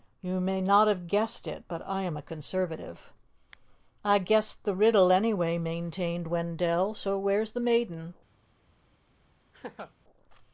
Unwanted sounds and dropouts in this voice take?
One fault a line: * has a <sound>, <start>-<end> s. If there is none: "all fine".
* has a laugh, 9.5-9.9 s